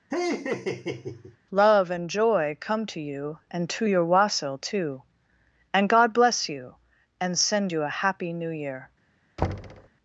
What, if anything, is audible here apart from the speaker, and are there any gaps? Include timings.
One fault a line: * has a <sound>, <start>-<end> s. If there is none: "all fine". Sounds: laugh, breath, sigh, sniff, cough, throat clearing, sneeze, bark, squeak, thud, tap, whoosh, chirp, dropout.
* has a laugh, 0.1-1.4 s
* has a thud, 9.4-9.9 s